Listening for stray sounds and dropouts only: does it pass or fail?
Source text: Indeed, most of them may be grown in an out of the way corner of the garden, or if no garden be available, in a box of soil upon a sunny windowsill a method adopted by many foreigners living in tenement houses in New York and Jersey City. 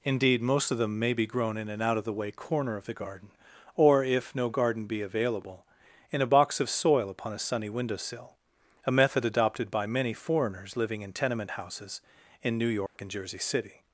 fail